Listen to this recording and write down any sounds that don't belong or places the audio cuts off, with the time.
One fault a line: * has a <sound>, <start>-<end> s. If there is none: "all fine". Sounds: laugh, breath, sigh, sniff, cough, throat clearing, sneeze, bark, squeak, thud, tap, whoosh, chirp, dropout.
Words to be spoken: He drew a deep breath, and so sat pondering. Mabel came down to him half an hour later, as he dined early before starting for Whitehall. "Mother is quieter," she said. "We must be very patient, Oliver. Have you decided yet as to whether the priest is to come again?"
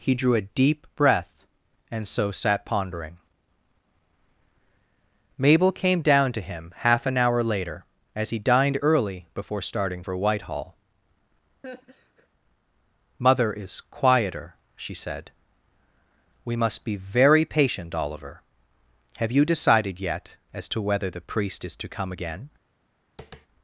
* has a laugh, 11.6-12.3 s
* has a tap, 23.2-23.5 s